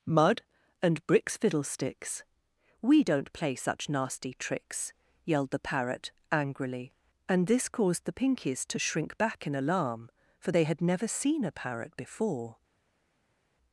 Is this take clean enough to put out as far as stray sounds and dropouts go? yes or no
yes